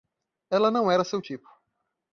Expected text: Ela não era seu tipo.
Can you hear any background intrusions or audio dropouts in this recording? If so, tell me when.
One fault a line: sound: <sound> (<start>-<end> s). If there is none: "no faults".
no faults